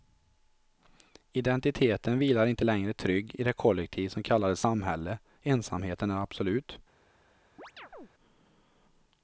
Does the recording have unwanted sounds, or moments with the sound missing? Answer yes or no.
yes